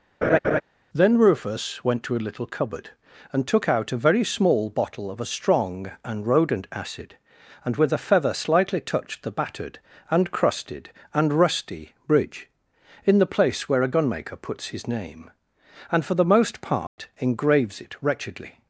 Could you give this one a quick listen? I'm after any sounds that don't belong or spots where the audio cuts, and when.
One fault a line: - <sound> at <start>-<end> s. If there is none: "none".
- laugh at 0.2-0.6 s
- dropout at 16.9-17.0 s